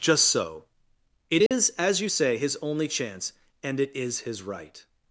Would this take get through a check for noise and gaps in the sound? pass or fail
fail